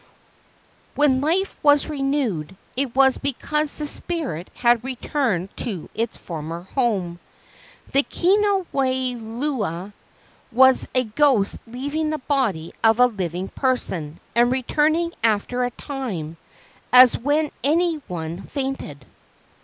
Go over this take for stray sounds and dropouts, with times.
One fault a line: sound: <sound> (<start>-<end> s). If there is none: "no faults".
no faults